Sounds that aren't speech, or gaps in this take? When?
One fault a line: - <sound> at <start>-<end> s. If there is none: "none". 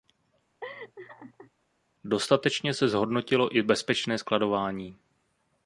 - laugh at 0.6-1.5 s